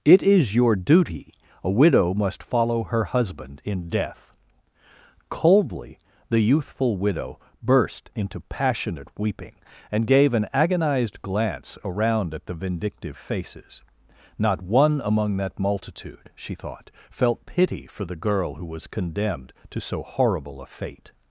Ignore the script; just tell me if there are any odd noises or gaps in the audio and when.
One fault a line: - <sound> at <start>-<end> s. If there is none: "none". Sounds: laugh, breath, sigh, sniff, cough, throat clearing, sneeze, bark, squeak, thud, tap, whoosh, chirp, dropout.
none